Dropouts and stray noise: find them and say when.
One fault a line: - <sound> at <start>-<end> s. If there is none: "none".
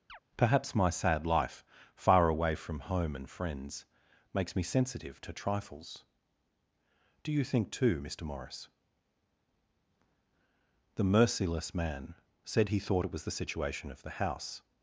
- chirp at 0.1-0.2 s